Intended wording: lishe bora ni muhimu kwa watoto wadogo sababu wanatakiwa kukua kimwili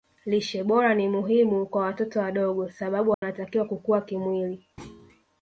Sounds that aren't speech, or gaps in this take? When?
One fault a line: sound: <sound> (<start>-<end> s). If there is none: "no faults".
sound: dropout (3.1-3.2 s)
sound: thud (4.8-5.2 s)